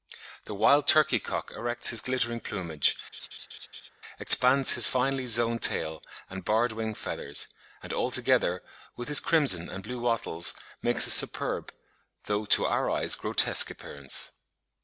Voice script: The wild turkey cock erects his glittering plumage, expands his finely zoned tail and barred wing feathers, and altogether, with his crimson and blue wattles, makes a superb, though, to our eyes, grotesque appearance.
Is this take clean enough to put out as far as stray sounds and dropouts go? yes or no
no